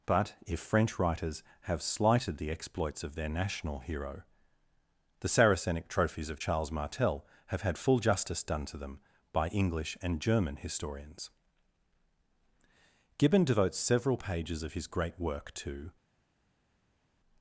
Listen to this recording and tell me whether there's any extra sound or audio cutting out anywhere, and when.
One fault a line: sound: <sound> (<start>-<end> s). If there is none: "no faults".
no faults